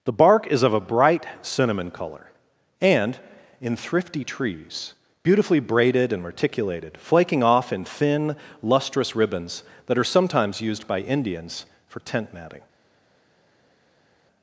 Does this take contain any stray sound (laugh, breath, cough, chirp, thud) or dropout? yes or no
no